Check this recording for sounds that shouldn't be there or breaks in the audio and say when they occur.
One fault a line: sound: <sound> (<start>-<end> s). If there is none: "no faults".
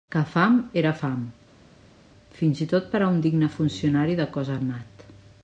no faults